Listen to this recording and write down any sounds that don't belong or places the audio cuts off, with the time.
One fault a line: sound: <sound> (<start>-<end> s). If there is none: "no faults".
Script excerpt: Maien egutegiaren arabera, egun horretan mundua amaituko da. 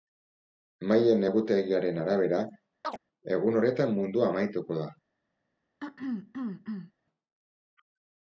sound: chirp (2.8-3.0 s)
sound: throat clearing (5.8-6.9 s)